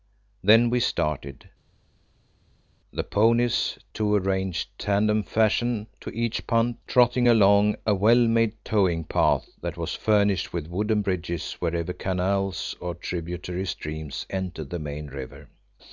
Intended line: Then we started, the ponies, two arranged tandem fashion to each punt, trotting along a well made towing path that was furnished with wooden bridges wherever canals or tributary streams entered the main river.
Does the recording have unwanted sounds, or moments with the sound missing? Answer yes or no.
no